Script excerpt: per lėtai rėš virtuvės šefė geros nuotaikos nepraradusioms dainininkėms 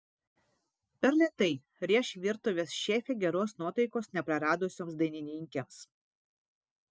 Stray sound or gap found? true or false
false